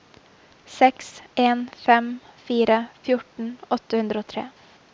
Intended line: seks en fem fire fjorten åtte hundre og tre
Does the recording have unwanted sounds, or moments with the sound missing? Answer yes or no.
no